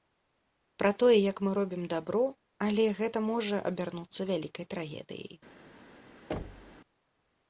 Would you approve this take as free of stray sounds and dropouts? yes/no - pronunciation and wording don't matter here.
no